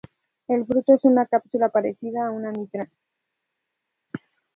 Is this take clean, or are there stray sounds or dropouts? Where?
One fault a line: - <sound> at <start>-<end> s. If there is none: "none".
none